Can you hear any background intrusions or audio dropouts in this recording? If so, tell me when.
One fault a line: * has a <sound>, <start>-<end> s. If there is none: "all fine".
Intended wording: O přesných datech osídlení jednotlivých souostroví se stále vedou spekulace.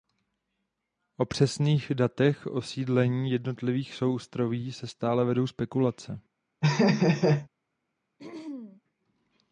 * has a laugh, 6.6-7.5 s
* has a throat clearing, 8.2-8.8 s